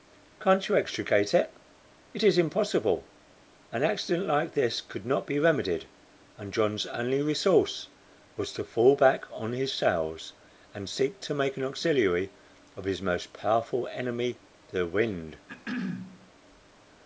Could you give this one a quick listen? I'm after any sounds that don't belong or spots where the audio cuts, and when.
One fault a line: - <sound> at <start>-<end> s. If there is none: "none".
- throat clearing at 15.5-16.3 s